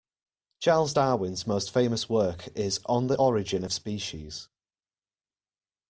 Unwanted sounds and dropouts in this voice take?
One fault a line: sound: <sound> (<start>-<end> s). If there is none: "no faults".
no faults